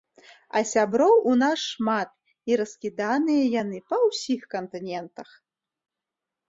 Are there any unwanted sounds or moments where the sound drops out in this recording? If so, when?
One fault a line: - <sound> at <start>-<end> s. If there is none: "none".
none